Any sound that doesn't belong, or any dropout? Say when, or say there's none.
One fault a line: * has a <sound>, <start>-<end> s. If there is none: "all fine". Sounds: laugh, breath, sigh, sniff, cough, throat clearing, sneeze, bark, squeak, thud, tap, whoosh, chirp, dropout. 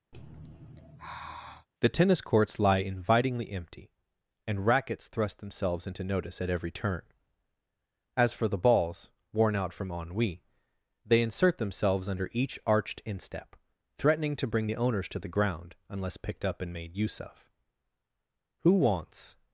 * has a sigh, 0.1-1.7 s